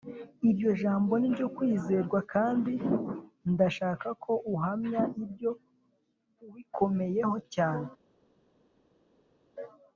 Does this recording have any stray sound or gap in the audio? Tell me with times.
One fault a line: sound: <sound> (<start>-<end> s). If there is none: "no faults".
no faults